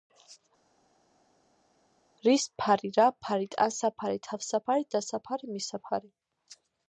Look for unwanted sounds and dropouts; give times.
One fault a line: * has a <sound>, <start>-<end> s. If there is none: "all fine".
all fine